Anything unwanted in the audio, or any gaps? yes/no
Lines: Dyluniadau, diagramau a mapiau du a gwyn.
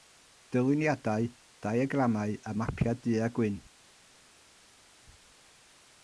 no